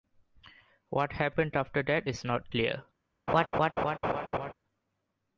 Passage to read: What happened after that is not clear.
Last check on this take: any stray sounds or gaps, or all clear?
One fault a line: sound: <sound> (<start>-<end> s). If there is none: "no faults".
sound: laugh (3.3-4.5 s)